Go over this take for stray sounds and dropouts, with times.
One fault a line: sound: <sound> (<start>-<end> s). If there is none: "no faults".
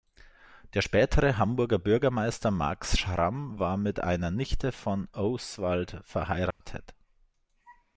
sound: dropout (6.5-6.6 s)